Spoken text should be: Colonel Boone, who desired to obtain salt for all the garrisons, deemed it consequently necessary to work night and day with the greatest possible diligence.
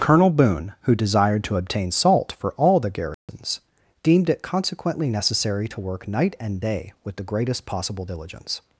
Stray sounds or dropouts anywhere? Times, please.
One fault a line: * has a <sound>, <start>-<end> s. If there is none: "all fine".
* has a dropout, 3.1-3.3 s